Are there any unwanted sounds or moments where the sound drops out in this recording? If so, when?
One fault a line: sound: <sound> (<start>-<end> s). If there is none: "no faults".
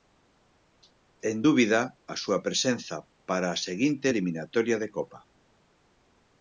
no faults